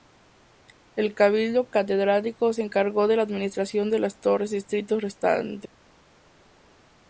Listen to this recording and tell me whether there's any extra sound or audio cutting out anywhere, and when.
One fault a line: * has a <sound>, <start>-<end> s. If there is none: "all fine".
all fine